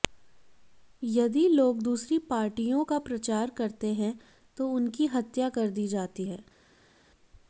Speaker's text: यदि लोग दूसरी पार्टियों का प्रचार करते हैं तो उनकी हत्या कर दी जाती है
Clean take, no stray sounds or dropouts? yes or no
yes